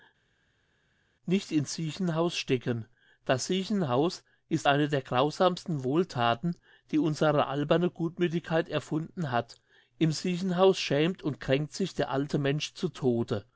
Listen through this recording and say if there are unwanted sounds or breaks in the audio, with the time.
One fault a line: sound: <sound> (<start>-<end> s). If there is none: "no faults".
no faults